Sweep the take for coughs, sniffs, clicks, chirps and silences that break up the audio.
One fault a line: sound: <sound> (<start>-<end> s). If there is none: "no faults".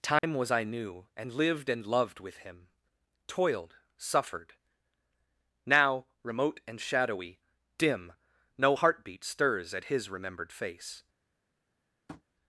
sound: dropout (0.2-0.2 s)
sound: tap (12.1-12.2 s)